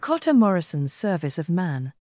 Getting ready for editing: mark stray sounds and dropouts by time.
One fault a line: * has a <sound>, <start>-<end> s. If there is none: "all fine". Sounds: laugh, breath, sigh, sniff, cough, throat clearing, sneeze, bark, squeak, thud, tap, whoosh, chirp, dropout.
all fine